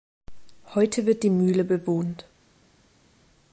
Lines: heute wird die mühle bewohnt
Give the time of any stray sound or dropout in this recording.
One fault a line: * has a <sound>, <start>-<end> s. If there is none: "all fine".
all fine